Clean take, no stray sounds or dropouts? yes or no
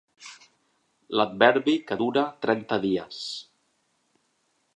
yes